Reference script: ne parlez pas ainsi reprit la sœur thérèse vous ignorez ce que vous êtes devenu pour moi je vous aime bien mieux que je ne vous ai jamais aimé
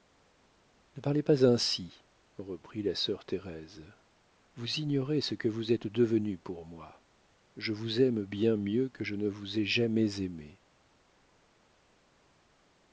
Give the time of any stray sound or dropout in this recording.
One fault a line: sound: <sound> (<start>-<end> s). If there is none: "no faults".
no faults